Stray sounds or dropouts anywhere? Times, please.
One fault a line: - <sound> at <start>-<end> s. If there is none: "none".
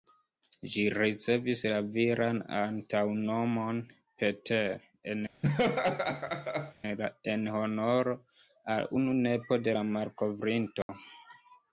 - laugh at 5.4-6.7 s
- dropout at 10.8-10.9 s